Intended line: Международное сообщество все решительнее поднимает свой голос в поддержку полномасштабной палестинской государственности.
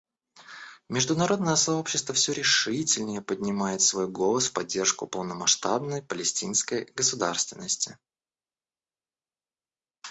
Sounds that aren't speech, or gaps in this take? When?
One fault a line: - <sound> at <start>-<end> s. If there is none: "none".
none